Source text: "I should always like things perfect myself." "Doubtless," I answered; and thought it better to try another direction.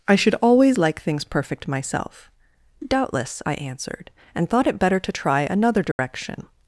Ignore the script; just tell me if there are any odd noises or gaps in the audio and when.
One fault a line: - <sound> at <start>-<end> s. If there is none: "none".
- dropout at 5.9-6.0 s